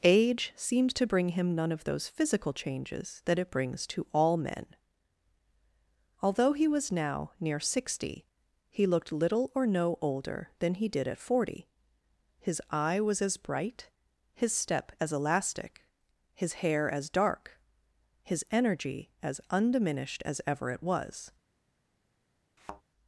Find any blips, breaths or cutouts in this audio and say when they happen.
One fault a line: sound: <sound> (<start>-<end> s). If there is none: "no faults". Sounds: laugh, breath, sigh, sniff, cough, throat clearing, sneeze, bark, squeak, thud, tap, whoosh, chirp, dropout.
sound: thud (22.6-22.8 s)